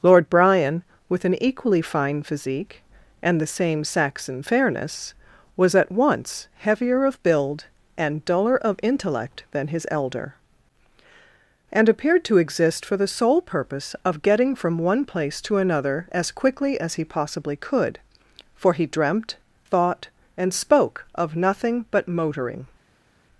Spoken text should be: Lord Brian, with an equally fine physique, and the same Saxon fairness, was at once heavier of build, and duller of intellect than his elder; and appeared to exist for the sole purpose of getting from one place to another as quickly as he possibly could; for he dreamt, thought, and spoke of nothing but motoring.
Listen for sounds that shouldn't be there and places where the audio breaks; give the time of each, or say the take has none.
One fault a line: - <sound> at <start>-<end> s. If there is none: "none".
none